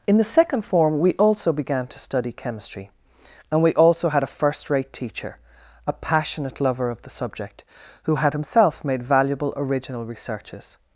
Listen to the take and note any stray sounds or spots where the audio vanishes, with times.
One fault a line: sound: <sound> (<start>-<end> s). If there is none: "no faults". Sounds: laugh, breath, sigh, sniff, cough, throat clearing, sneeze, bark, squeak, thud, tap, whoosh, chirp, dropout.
no faults